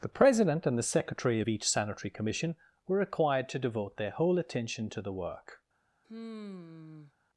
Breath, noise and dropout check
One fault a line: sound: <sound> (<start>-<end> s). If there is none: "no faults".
sound: sigh (6.0-7.1 s)